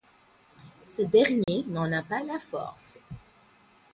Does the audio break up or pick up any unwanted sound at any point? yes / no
yes